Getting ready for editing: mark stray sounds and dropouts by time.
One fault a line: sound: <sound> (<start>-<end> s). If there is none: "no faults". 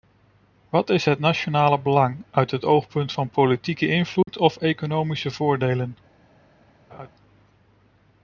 sound: dropout (4.2-4.3 s)
sound: laugh (6.9-7.1 s)